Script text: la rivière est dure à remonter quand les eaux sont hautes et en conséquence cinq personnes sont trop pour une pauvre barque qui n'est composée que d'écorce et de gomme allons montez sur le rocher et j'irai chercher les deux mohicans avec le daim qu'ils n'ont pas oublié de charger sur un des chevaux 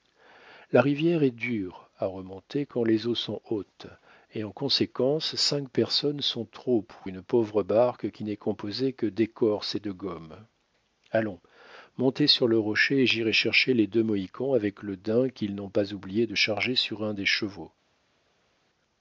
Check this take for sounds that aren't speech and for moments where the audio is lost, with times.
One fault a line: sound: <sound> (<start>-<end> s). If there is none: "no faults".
no faults